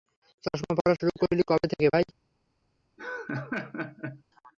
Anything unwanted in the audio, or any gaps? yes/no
yes